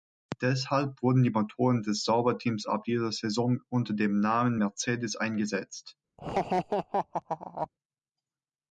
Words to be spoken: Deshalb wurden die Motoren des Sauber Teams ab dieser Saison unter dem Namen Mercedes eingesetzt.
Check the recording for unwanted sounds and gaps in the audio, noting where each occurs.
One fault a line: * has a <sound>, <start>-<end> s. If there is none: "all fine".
* has a laugh, 6.2-7.7 s